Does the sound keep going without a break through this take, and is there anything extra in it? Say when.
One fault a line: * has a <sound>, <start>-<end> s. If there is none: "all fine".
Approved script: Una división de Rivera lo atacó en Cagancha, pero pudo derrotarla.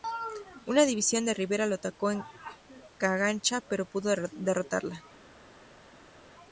all fine